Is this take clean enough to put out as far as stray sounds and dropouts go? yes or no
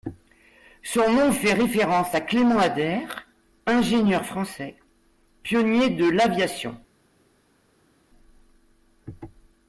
yes